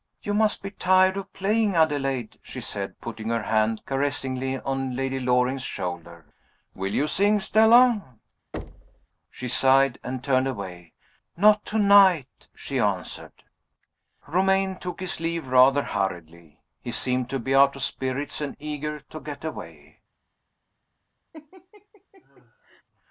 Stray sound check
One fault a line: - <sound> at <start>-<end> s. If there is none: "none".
- thud at 8.5-9.1 s
- laugh at 21.3-22.8 s